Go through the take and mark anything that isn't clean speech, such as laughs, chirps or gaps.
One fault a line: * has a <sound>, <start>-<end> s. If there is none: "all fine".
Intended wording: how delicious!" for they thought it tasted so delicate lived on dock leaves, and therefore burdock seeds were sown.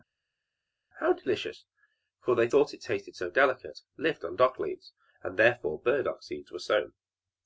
all fine